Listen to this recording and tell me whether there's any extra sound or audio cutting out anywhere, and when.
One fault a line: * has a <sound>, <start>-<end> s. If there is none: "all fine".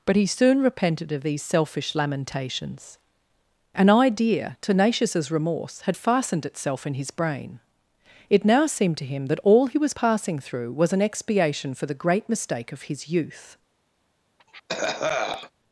* has a cough, 14.4-15.5 s